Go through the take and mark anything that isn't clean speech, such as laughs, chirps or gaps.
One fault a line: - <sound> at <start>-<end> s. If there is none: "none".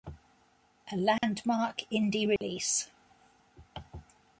- dropout at 1.2-1.2 s
- dropout at 2.4-2.4 s